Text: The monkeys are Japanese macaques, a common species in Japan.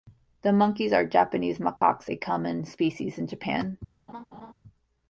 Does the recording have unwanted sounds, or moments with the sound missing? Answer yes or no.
yes